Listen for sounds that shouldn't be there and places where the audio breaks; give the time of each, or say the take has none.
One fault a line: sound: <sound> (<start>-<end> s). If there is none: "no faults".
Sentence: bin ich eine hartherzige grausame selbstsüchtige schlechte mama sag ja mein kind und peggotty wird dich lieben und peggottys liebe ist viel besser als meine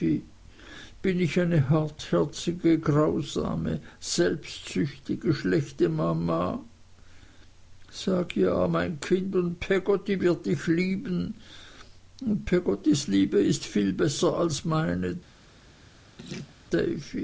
sound: laugh (16.2-16.6 s)